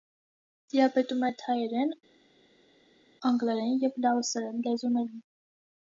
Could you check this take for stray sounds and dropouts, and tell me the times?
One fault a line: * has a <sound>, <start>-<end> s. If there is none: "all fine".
all fine